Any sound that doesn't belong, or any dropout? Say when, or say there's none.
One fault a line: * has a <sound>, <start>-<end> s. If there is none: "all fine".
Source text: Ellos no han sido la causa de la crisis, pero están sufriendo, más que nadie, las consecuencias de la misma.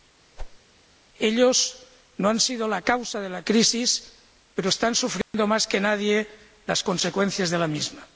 * has a whoosh, 0.4-0.6 s
* has a dropout, 5.2-5.3 s